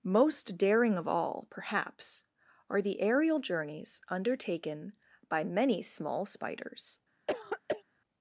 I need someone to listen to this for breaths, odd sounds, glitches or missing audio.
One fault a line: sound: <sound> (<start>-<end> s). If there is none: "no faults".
sound: throat clearing (7.3-7.8 s)